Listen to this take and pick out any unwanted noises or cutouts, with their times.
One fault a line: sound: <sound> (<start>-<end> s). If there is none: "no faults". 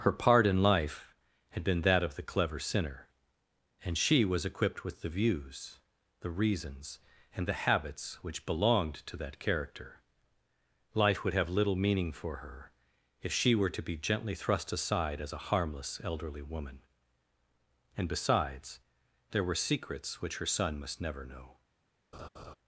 sound: laugh (22.1-22.6 s)